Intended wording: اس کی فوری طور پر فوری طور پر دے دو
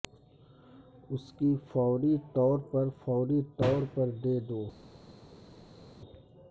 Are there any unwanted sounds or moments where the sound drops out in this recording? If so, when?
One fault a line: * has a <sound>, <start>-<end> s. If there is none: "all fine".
all fine